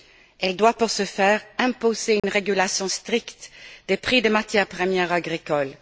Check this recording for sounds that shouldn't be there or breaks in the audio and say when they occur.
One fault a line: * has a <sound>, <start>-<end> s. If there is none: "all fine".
* has a dropout, 2.2-2.2 s